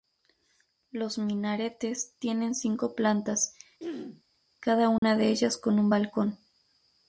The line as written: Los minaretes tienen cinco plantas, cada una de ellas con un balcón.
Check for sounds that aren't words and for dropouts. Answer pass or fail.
fail